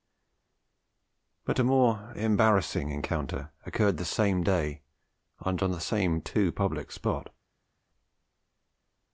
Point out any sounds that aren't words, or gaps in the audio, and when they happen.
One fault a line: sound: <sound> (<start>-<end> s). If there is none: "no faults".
no faults